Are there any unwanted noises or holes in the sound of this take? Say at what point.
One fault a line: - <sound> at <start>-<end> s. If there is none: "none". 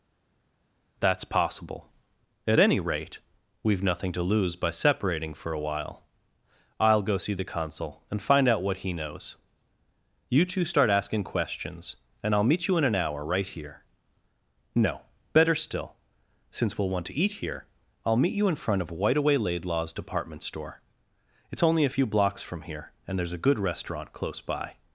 none